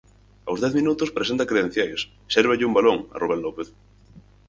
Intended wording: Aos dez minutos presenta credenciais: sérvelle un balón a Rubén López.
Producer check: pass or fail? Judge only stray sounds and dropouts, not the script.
pass